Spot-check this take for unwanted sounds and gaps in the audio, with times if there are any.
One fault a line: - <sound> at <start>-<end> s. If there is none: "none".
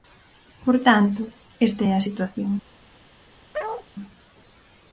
- bark at 3.5-3.9 s